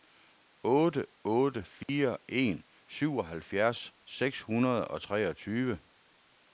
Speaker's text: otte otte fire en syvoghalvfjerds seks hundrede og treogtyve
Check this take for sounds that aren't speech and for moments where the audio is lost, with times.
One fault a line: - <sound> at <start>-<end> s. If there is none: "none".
- dropout at 1.8-1.9 s